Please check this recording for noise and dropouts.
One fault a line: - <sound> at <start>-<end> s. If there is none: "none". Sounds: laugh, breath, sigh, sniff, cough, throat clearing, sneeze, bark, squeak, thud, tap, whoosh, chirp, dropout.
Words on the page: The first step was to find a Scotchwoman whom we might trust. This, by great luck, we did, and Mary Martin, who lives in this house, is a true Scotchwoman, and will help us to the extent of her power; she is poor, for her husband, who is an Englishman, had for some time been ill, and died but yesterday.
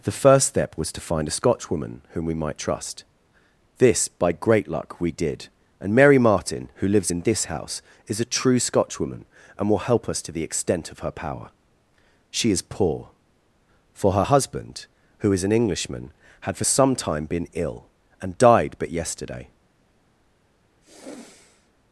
- sigh at 20.8-21.7 s